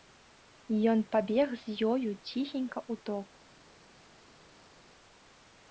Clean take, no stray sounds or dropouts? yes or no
yes